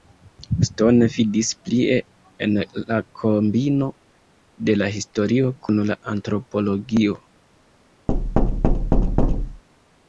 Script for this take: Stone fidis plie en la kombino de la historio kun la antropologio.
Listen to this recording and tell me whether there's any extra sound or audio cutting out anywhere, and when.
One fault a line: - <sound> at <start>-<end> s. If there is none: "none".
- thud at 8.1-9.6 s